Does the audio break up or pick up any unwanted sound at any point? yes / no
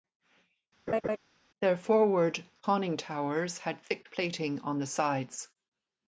yes